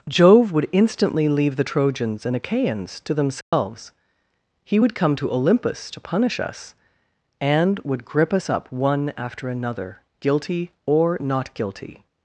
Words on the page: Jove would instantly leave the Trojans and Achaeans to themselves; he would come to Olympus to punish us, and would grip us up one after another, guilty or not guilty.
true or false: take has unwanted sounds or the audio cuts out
true